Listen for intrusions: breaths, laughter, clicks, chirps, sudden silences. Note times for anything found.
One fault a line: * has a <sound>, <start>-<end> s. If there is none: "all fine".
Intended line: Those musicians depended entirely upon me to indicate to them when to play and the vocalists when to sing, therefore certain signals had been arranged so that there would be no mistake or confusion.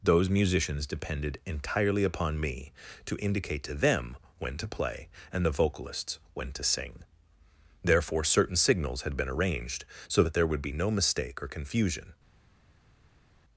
all fine